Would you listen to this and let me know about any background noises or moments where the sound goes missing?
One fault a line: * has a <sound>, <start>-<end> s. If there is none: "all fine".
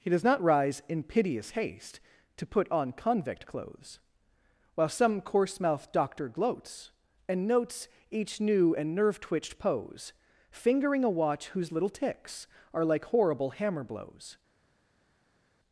all fine